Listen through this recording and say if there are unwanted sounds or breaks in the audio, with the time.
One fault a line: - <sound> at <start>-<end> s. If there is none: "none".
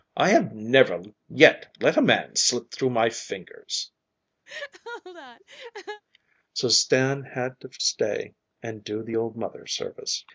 - laugh at 4.5-6.0 s